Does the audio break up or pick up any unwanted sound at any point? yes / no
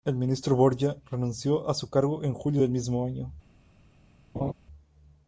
yes